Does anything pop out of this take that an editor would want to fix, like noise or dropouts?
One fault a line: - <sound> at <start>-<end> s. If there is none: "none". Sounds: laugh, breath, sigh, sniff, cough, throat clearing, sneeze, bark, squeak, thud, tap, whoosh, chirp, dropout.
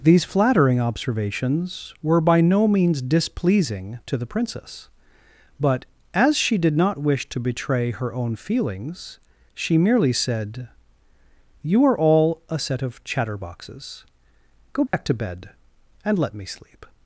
- dropout at 14.9-14.9 s